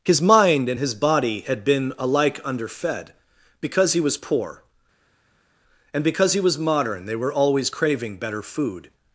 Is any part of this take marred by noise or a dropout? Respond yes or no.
no